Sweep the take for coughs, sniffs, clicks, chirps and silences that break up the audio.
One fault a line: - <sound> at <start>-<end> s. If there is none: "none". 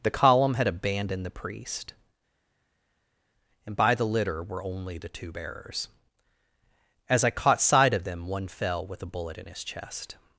none